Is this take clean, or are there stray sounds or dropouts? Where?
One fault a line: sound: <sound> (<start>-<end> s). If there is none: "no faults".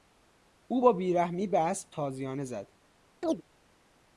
sound: chirp (3.2-3.4 s)